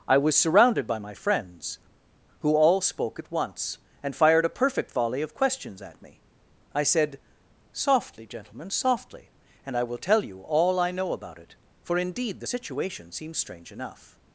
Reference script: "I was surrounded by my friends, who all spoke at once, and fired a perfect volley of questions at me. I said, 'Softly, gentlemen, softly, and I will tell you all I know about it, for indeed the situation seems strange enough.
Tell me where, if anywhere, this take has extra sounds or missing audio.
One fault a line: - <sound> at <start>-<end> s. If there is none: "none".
none